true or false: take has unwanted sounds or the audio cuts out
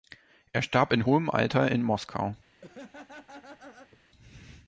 true